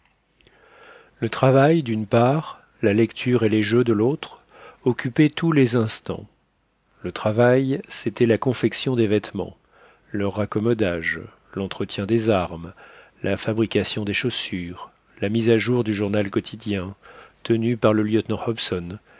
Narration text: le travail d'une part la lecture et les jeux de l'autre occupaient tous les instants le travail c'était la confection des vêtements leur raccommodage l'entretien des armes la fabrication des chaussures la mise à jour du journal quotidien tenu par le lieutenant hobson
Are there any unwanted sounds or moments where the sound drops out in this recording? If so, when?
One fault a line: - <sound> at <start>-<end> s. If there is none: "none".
none